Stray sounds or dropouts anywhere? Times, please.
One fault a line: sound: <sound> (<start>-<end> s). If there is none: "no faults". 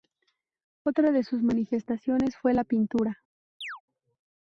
sound: chirp (3.6-3.8 s)